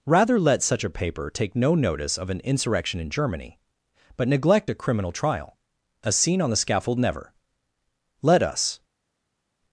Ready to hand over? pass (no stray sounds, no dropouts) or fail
pass